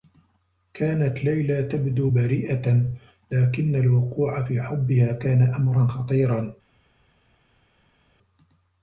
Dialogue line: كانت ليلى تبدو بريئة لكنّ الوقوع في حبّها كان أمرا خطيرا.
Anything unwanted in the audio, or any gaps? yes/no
no